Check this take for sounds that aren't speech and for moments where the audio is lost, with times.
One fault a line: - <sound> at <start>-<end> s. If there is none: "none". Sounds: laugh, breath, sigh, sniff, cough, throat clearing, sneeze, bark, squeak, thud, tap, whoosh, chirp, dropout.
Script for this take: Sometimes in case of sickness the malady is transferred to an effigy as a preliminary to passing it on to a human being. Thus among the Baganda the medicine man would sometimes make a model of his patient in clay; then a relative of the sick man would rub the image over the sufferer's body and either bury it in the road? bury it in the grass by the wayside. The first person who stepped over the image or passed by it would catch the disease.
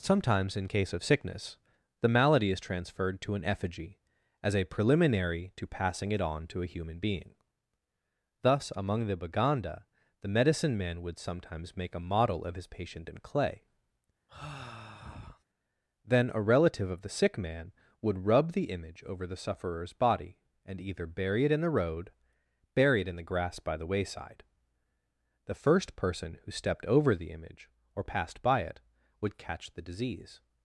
- sigh at 14.3-15.4 s